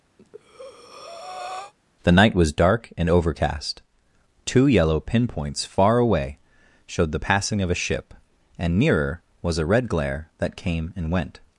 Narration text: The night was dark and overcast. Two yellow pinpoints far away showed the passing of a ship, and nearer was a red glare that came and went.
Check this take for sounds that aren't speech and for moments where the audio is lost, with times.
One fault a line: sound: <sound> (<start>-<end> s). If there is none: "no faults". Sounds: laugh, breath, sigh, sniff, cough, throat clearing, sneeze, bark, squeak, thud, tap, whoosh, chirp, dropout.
sound: breath (0.2-1.7 s)